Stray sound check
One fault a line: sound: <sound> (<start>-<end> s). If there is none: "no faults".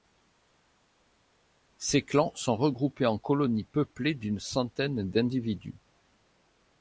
no faults